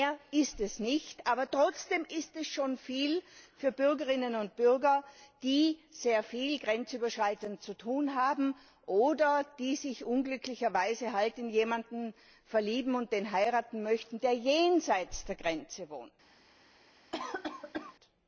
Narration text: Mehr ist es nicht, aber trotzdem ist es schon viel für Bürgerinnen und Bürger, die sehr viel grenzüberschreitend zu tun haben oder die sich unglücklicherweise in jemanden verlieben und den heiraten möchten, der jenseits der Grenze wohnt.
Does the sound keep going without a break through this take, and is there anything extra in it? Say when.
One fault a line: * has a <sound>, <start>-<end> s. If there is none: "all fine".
* has a cough, 17.1-18.0 s